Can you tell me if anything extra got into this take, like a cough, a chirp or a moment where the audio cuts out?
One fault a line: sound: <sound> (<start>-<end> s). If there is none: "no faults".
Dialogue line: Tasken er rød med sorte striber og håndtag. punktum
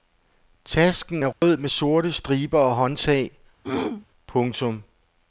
sound: dropout (1.3-1.4 s)
sound: throat clearing (3.6-4.1 s)